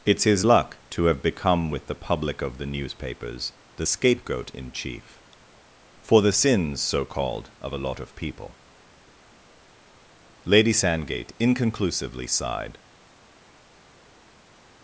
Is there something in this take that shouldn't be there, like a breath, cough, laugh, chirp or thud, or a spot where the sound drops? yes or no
no